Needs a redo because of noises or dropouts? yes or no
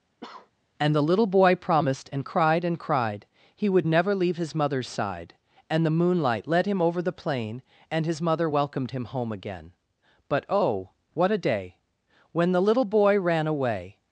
yes